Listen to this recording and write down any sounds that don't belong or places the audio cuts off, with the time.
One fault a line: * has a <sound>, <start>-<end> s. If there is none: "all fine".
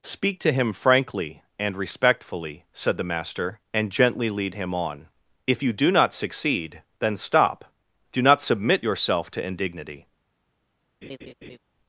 * has a laugh, 11.0-11.6 s